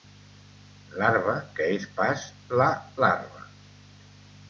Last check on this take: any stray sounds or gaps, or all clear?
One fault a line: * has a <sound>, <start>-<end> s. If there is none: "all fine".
all fine